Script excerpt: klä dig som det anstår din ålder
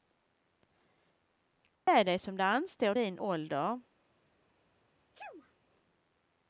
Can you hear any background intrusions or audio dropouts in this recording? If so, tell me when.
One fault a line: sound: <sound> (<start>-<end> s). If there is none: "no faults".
sound: dropout (1.7-1.9 s)
sound: sneeze (5.1-5.5 s)